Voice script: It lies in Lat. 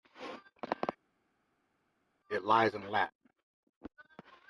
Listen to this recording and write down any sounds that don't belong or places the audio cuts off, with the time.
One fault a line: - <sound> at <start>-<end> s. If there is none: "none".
none